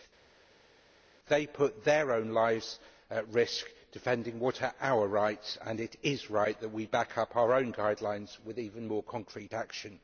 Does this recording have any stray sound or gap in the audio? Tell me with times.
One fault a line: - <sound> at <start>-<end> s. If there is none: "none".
none